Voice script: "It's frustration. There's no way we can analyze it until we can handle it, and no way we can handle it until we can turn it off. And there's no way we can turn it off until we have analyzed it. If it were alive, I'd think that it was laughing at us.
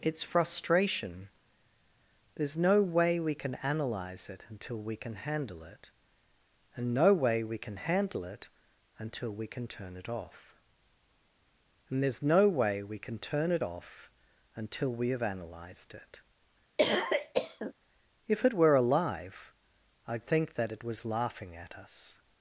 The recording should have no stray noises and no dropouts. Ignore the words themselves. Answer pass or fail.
fail